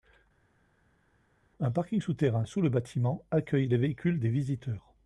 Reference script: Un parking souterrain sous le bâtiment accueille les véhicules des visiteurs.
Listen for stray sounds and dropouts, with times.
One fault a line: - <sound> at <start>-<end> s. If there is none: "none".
none